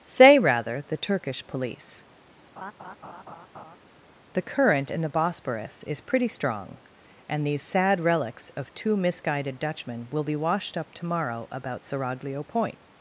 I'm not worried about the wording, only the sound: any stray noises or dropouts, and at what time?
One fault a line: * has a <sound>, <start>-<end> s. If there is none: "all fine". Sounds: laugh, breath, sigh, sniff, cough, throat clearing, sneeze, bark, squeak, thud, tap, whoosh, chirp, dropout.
* has a laugh, 2.6-3.8 s